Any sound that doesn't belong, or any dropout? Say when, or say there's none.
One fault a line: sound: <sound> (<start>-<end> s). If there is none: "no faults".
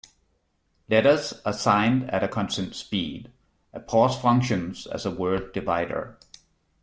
no faults